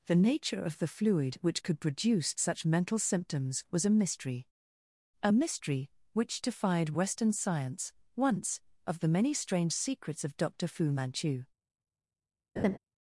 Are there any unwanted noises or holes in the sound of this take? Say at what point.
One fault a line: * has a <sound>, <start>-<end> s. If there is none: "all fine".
* has a laugh, 12.6-12.8 s